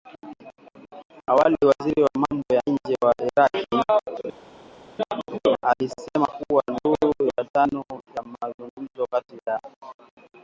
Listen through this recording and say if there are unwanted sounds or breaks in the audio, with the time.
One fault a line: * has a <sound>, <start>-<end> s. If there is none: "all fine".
all fine